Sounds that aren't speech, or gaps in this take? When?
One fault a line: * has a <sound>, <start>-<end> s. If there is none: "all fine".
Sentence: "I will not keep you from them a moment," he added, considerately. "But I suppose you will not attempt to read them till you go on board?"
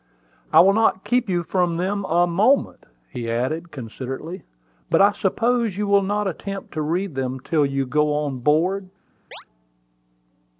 * has a chirp, 9.3-9.4 s